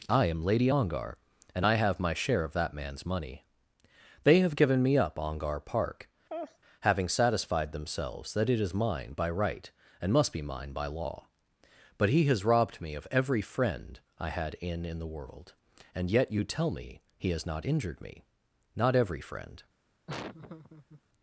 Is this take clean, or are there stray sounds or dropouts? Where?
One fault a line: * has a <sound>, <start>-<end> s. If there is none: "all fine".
* has a laugh, 6.3-6.6 s
* has a laugh, 20.1-21.0 s